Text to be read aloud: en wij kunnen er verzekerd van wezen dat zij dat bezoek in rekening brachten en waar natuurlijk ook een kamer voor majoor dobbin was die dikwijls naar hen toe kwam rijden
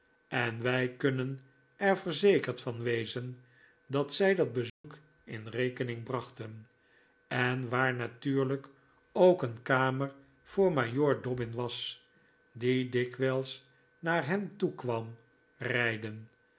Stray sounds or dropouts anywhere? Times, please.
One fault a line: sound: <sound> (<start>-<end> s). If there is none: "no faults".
sound: dropout (4.7-4.8 s)